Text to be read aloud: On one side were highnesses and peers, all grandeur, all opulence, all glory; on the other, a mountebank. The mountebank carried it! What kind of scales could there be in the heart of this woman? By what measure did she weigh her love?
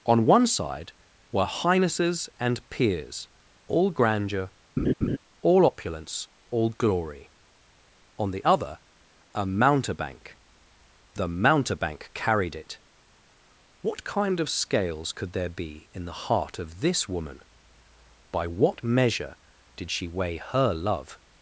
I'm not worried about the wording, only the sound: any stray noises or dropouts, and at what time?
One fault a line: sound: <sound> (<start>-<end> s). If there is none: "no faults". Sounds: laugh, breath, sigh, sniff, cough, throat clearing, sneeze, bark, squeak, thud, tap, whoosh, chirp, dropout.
sound: laugh (4.8-5.2 s)